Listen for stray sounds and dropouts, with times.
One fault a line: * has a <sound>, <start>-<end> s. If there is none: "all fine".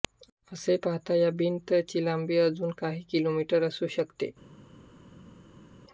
all fine